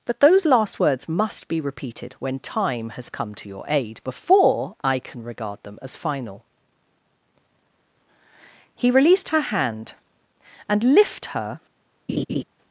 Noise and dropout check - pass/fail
fail